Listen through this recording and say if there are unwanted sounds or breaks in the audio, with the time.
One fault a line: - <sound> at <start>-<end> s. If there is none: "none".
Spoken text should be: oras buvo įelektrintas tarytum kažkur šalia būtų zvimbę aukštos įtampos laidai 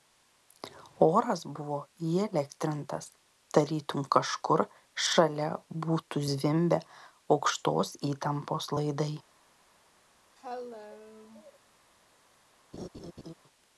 - cough at 10.4-11.6 s
- laugh at 12.7-13.3 s